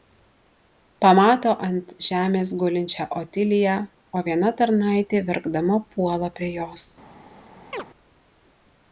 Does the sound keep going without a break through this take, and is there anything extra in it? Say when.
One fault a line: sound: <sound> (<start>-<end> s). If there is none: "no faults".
sound: chirp (7.7-7.8 s)